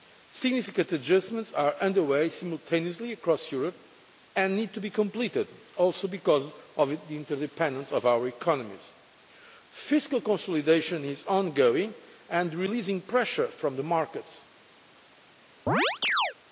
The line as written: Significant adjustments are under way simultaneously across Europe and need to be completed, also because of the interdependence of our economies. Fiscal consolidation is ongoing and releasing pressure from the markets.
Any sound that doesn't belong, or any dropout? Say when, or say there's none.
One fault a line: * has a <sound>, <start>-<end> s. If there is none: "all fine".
* has a chirp, 15.7-16.3 s